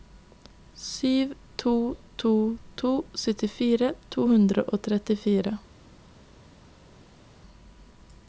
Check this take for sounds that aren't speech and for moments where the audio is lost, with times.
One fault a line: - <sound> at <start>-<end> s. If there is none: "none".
none